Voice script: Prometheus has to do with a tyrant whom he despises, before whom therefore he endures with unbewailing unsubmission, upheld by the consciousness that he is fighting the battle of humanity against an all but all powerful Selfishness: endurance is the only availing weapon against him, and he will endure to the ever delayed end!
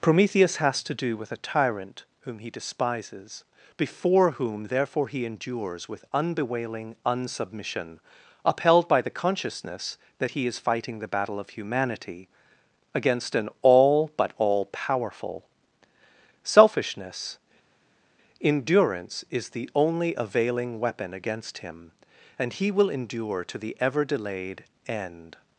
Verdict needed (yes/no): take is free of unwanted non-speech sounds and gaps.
yes